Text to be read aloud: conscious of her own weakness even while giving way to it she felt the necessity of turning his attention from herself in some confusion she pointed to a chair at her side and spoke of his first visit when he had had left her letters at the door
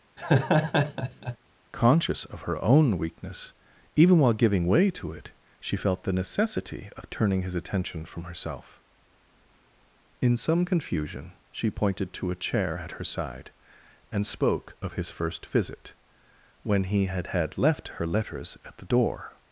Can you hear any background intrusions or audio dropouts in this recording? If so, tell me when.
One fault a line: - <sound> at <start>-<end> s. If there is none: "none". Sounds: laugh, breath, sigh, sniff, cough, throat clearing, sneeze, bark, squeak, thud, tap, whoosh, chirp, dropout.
- laugh at 0.2-1.4 s